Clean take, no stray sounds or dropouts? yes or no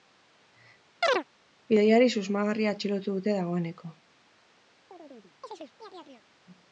no